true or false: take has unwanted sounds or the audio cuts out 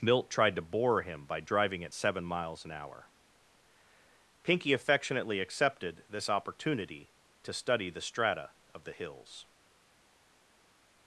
false